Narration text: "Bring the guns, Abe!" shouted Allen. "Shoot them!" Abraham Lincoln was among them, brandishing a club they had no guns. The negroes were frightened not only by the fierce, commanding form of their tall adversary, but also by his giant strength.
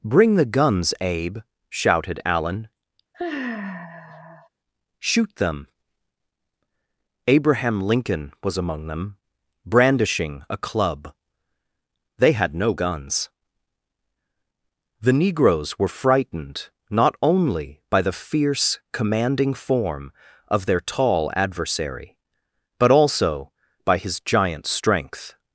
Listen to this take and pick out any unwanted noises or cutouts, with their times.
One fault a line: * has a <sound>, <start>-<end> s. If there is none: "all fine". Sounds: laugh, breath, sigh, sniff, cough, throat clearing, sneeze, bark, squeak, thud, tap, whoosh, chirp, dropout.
* has a sigh, 3.1-4.5 s